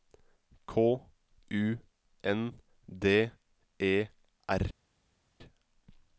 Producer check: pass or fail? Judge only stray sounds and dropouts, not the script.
pass